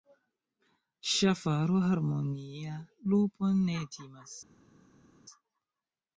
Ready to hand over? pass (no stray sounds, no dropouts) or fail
pass